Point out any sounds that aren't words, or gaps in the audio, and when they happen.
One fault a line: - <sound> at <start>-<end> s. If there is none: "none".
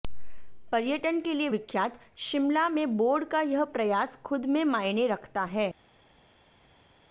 none